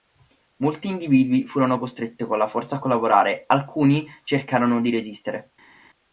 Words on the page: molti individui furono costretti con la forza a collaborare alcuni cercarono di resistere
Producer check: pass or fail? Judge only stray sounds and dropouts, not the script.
pass